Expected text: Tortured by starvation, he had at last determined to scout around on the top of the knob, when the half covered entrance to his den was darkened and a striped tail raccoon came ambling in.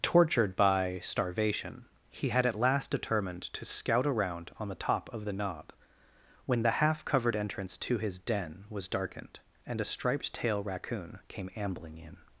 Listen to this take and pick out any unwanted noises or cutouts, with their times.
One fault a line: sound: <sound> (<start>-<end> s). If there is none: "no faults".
no faults